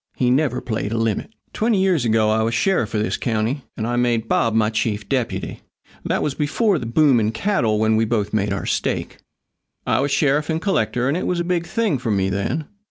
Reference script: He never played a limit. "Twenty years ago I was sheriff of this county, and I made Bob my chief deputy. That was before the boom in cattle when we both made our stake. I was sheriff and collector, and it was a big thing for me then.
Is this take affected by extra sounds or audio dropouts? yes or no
no